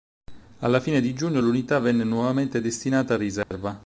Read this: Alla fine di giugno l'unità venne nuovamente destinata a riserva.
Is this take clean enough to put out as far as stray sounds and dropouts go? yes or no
no